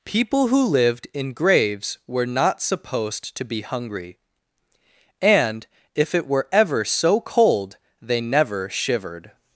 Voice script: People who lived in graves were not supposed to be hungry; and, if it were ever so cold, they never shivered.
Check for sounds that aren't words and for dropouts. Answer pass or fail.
pass